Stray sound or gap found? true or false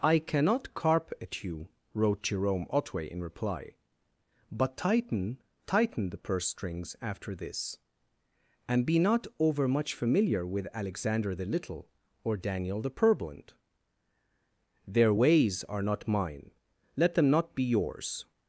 false